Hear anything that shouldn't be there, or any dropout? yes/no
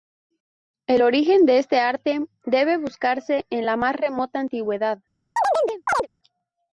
yes